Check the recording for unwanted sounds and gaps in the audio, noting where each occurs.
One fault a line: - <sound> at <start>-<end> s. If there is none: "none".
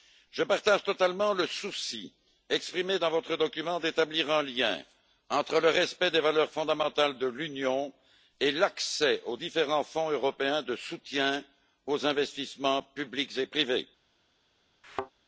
- thud at 14.8-15.1 s